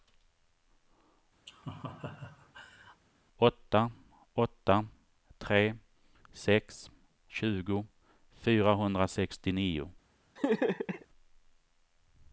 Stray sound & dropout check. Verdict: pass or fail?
fail